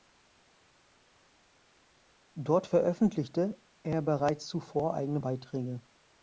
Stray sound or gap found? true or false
false